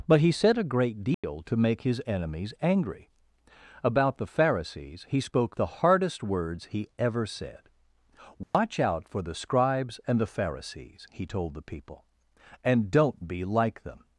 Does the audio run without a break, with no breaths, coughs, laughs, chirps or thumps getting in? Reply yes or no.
no